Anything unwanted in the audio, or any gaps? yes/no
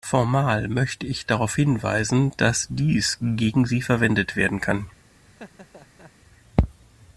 yes